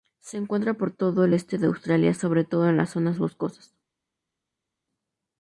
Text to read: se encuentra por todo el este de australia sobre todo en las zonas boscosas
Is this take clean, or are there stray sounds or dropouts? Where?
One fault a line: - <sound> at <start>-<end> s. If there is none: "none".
none